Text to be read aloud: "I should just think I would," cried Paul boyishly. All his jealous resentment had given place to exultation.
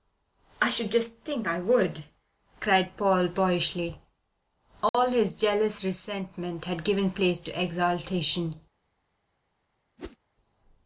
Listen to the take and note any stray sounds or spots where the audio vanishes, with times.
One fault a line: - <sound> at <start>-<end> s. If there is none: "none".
- dropout at 4.9-4.9 s
- whoosh at 10.0-10.2 s